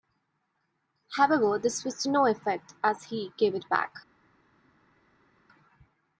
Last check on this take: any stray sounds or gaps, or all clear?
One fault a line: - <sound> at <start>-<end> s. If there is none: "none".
none